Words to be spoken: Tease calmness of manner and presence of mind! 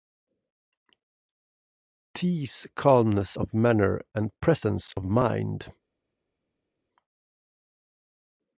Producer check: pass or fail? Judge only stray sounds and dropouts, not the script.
pass